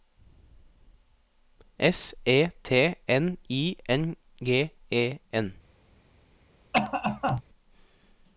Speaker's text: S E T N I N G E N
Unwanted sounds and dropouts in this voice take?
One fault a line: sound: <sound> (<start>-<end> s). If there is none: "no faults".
sound: cough (6.7-7.4 s)